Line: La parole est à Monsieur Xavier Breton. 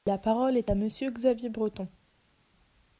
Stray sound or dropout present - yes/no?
no